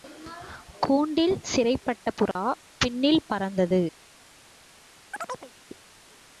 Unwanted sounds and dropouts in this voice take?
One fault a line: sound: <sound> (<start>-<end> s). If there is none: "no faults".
sound: dropout (2.3-2.4 s)
sound: chirp (5.1-5.5 s)